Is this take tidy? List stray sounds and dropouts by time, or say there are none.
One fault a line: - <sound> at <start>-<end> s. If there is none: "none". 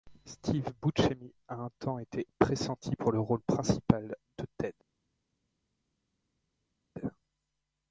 none